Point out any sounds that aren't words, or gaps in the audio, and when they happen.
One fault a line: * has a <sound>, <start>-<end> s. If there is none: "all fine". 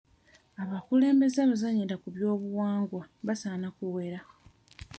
all fine